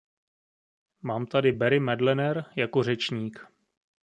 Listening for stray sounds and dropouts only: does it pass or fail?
pass